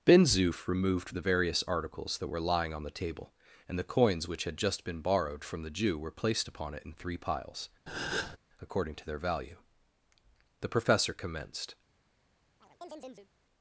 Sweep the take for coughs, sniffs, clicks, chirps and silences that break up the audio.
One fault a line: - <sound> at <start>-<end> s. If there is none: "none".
- breath at 7.9-8.4 s
- chirp at 12.6-13.3 s